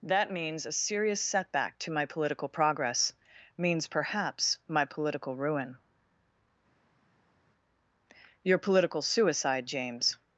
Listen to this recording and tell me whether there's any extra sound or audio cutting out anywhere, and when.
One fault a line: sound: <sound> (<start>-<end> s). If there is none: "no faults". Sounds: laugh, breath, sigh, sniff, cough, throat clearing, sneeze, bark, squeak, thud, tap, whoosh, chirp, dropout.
no faults